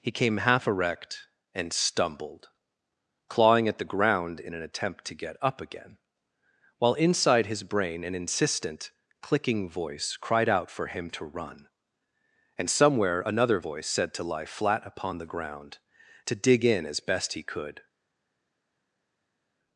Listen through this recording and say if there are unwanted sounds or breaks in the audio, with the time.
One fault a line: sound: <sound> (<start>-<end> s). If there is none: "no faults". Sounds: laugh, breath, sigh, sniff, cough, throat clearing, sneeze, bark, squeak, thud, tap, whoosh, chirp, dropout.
no faults